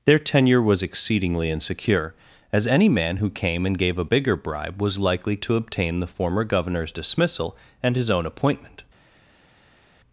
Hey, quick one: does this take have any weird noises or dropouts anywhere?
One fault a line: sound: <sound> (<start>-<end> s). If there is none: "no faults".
no faults